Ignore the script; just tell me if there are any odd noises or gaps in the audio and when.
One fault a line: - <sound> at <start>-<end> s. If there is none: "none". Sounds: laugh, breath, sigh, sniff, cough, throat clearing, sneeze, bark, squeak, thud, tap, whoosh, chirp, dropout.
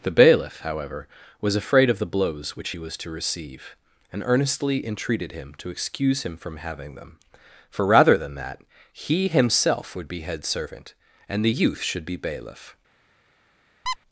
- squeak at 13.9-14.0 s